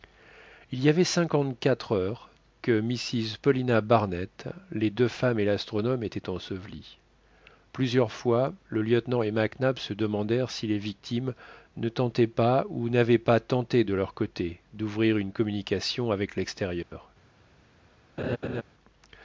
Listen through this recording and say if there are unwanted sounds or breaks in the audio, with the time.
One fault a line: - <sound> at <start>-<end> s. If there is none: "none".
- dropout at 16.8-16.9 s
- laugh at 18.2-18.6 s